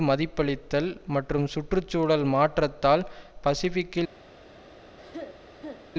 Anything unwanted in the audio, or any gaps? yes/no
yes